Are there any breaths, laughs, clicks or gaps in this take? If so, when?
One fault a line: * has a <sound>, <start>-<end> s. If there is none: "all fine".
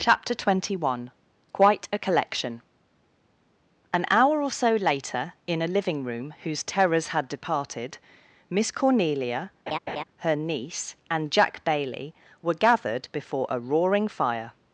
* has a laugh, 9.7-10.0 s